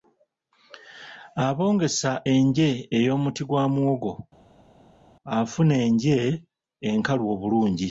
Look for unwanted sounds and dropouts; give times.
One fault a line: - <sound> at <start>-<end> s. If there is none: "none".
none